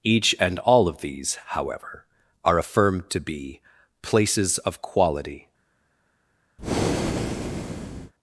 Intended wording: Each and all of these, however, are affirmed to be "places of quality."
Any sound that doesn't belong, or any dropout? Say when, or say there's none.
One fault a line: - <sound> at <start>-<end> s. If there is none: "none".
- breath at 6.6-8.1 s